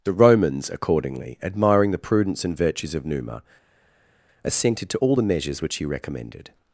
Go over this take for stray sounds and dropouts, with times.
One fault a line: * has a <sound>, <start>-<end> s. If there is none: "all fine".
all fine